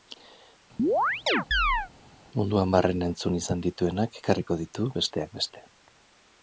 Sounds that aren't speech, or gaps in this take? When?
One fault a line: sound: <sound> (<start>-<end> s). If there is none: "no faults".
sound: chirp (0.8-1.9 s)